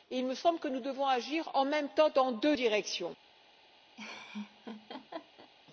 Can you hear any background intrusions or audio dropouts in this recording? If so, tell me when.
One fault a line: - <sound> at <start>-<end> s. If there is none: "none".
- laugh at 4.0-5.5 s